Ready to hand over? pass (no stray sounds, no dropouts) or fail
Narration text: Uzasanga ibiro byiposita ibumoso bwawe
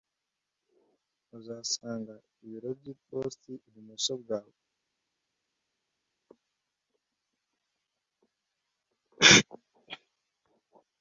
pass